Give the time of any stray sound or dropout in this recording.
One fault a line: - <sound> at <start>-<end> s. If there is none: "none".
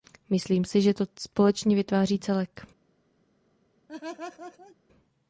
- laugh at 3.9-4.8 s